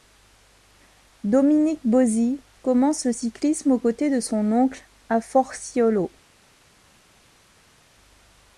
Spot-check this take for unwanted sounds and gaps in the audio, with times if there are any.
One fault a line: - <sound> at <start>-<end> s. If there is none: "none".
none